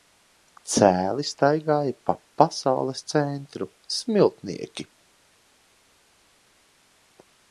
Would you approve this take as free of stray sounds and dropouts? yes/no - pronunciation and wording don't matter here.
yes